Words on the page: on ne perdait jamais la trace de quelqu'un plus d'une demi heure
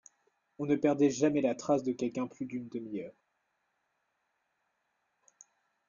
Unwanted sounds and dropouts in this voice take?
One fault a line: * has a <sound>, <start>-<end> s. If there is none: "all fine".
all fine